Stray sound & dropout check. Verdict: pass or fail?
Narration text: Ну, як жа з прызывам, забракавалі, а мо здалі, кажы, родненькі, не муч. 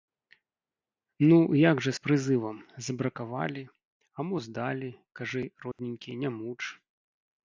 fail